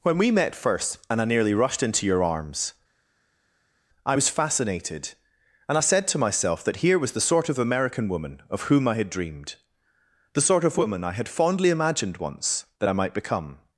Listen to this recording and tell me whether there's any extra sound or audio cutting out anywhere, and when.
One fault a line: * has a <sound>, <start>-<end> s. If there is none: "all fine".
all fine